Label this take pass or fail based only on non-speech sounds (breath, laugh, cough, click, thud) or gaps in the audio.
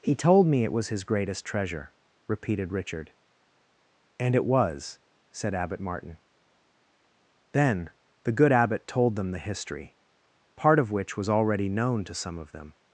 pass